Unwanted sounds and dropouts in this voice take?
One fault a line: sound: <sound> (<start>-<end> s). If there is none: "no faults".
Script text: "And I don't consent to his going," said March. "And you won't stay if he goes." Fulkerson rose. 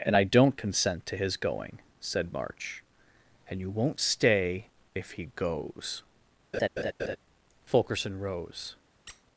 sound: laugh (6.5-7.2 s)
sound: squeak (9.1-9.2 s)